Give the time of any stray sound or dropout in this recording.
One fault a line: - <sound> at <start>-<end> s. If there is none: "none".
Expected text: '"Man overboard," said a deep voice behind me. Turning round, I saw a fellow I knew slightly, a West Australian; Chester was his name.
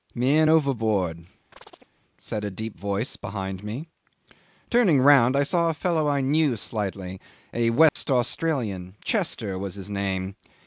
- chirp at 1.5-1.9 s
- dropout at 7.9-8.0 s